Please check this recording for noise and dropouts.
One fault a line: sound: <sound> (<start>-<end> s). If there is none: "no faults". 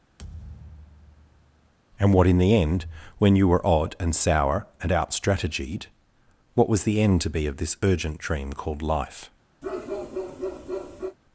sound: thud (0.2-1.7 s)
sound: bark (9.6-11.2 s)